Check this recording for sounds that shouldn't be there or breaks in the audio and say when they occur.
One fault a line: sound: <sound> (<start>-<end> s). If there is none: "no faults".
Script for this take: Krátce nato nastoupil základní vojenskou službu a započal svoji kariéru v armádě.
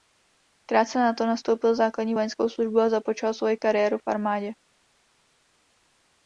no faults